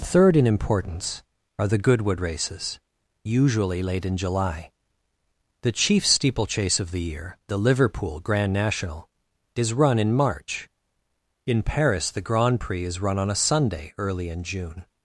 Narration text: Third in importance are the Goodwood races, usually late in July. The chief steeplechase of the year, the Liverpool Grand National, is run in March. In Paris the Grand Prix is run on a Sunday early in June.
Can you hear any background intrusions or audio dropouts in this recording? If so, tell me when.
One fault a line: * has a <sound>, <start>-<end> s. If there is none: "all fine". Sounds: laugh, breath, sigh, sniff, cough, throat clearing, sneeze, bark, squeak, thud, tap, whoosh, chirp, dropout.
all fine